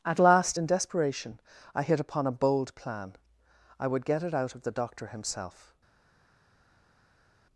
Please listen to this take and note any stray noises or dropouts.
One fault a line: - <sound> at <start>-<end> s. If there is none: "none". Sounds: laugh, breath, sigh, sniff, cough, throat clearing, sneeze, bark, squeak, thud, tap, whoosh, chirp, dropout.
none